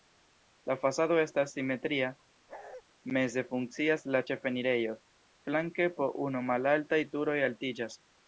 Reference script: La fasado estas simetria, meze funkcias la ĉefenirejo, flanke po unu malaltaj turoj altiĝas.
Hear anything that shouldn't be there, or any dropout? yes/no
yes